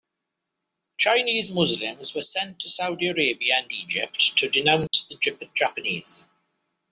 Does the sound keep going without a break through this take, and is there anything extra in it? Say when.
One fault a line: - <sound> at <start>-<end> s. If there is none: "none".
- dropout at 4.9-4.9 s